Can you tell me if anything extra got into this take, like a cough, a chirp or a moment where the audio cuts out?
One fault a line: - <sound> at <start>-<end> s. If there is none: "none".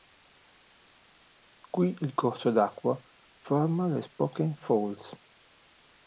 none